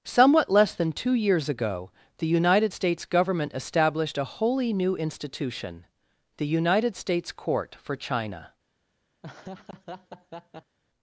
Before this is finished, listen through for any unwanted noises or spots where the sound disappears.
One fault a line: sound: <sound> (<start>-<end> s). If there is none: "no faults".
sound: laugh (9.2-10.8 s)